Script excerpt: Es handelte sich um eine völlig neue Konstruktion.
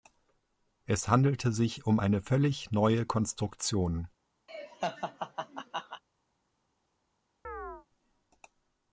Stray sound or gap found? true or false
true